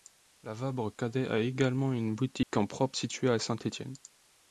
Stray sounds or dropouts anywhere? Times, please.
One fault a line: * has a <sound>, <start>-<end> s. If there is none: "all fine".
* has a dropout, 2.4-2.5 s